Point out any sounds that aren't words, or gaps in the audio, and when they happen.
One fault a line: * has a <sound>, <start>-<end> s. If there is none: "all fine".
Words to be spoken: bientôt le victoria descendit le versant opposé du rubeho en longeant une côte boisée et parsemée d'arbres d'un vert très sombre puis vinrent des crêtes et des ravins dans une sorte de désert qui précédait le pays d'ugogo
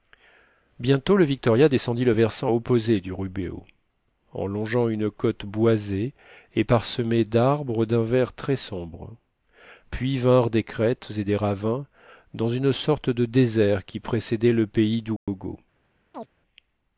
* has a dropout, 15.2-15.3 s
* has a chirp, 16.1-16.3 s